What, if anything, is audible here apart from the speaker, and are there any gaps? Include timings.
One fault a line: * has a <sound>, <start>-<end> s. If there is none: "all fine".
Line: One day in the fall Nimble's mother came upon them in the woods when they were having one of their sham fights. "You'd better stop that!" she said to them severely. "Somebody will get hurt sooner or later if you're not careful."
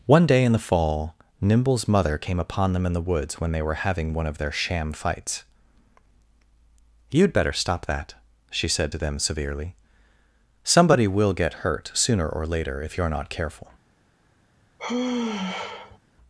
* has a sigh, 14.8-16.0 s